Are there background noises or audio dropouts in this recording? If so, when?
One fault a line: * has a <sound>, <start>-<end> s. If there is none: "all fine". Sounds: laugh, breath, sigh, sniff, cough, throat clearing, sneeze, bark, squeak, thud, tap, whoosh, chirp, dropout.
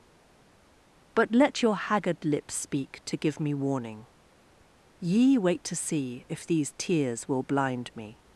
all fine